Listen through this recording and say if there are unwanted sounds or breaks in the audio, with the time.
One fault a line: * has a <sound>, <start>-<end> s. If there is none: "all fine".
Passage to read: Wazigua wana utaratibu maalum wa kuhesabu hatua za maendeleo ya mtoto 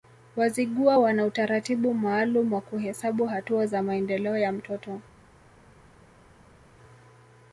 all fine